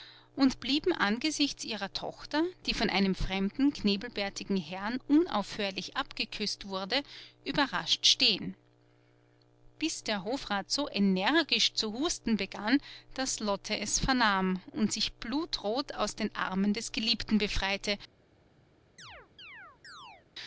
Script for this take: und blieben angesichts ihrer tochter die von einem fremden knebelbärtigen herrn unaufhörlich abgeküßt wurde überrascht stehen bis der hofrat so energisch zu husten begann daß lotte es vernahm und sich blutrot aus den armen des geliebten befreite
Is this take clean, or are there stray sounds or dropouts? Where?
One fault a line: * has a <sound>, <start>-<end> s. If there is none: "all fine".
* has a chirp, 19.0-20.3 s